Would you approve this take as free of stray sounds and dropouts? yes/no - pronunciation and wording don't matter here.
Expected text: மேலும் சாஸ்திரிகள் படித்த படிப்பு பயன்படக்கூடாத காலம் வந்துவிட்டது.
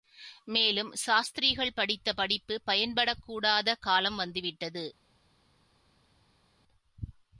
yes